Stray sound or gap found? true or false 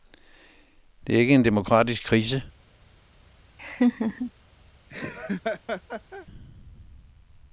true